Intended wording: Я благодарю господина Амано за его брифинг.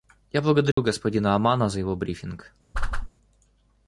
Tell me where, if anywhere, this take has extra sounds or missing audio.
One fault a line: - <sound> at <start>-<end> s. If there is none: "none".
- dropout at 0.7-0.8 s
- whoosh at 2.7-3.1 s